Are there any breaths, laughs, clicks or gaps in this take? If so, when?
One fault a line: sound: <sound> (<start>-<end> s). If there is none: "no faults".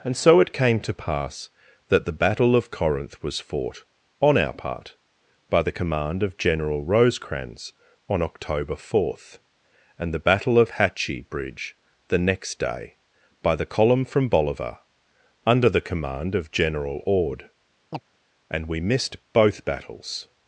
sound: chirp (17.9-18.0 s)